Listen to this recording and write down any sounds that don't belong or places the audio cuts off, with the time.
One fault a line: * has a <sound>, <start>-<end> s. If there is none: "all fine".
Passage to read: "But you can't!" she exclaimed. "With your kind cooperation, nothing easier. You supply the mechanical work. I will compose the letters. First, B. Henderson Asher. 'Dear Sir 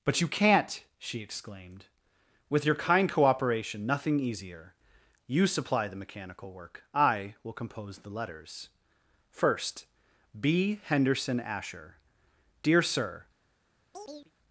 * has a chirp, 13.9-14.3 s